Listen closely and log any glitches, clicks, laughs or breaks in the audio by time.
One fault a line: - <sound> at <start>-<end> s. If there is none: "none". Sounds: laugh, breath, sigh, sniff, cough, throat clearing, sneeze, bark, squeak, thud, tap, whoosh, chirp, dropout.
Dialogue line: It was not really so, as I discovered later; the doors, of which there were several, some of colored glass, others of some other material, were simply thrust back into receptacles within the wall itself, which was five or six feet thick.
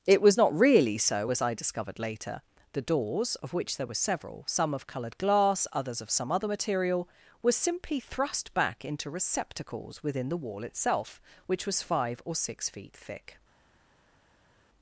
none